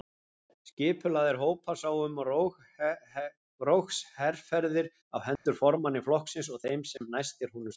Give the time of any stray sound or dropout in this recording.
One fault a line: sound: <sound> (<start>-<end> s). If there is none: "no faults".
sound: dropout (5.4-5.5 s)
sound: dropout (7.0-7.0 s)